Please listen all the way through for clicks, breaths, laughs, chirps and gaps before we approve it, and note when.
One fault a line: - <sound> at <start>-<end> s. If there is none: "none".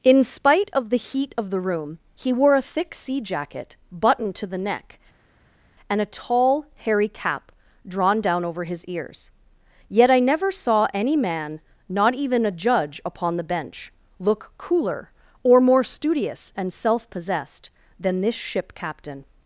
none